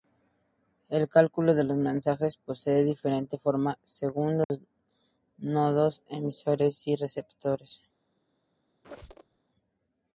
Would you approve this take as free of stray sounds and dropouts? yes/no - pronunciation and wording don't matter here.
no